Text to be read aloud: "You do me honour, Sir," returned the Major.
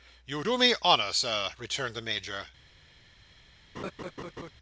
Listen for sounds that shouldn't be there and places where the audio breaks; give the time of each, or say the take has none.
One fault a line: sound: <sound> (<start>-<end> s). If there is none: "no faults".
sound: laugh (3.7-4.5 s)